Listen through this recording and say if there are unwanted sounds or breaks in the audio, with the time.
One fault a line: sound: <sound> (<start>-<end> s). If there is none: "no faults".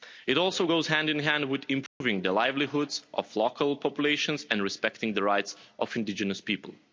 sound: dropout (1.9-2.0 s)